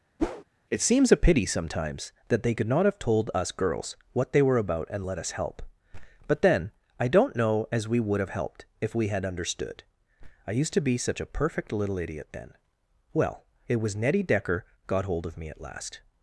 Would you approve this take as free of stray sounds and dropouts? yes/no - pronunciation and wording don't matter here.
no